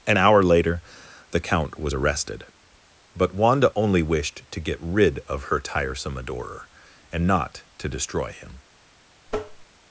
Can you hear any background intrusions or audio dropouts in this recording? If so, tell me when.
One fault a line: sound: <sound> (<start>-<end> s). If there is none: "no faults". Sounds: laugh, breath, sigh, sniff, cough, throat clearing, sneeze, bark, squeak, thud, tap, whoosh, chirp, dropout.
sound: tap (9.3-9.7 s)